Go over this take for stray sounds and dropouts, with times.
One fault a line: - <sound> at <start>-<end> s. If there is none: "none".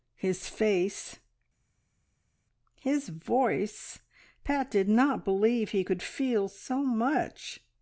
none